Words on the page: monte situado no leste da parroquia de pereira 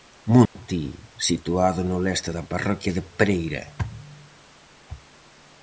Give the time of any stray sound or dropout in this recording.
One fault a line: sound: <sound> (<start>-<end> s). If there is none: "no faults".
sound: dropout (0.5-0.6 s)